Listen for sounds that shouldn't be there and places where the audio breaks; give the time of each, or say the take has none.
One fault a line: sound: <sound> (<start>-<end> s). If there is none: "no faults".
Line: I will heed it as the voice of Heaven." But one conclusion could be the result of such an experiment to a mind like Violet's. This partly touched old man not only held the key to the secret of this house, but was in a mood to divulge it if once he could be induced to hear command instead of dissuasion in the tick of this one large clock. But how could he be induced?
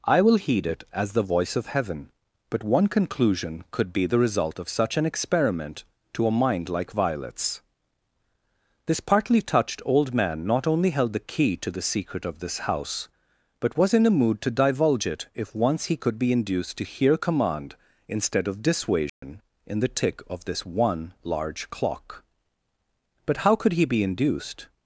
sound: dropout (19.1-19.2 s)